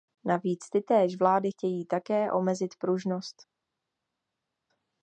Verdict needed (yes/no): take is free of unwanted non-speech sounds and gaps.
yes